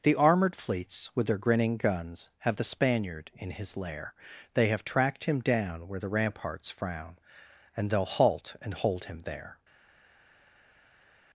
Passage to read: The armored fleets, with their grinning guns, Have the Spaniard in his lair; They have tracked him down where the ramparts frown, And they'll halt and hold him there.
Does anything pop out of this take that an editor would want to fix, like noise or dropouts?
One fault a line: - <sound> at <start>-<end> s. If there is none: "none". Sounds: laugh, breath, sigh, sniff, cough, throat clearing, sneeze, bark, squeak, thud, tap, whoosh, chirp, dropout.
none